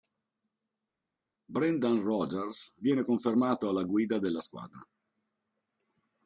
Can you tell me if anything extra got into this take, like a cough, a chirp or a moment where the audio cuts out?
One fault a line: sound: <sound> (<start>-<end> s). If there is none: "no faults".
no faults